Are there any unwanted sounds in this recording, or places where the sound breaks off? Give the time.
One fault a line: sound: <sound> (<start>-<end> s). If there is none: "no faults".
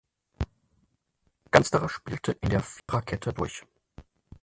sound: dropout (2.8-2.9 s)